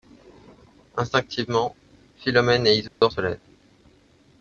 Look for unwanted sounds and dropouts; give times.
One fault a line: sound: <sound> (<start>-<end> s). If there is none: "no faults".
sound: dropout (2.9-3.0 s)